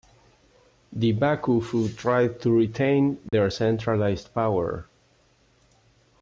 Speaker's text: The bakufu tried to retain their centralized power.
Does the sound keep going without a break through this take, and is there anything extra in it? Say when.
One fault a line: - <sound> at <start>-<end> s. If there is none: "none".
- dropout at 3.3-3.3 s